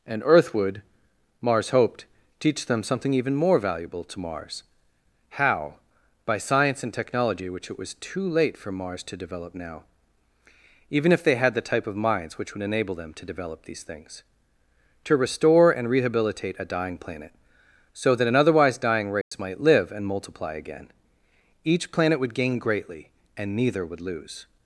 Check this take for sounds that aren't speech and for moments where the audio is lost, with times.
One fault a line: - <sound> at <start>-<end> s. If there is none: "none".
- dropout at 19.2-19.3 s